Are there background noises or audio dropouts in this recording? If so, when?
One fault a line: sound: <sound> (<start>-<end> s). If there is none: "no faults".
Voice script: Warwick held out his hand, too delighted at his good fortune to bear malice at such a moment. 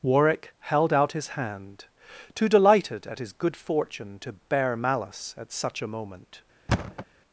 sound: thud (6.7-7.1 s)